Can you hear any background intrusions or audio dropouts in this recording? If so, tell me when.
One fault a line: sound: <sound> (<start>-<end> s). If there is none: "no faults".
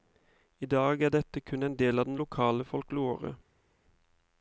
no faults